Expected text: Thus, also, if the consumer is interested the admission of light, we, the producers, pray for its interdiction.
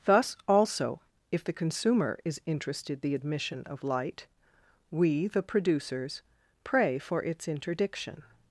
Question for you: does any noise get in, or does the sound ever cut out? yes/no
no